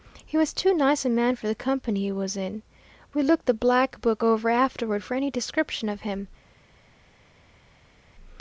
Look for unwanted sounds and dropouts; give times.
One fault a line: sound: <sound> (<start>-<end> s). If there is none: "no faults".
no faults